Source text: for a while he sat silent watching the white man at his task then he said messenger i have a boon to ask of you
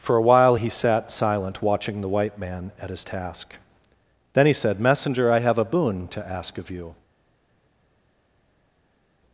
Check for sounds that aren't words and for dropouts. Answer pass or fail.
pass